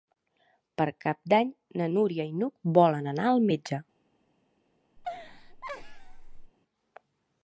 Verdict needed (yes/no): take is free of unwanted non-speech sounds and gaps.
no